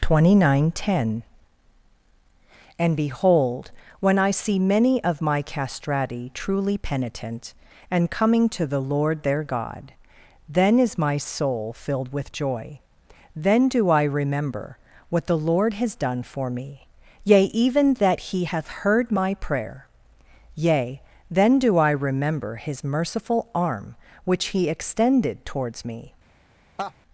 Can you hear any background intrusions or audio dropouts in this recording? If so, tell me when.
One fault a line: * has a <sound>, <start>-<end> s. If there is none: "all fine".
* has a laugh, 26.8-26.9 s